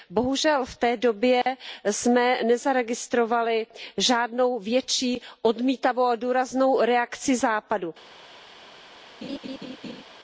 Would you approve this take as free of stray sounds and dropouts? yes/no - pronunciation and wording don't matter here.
no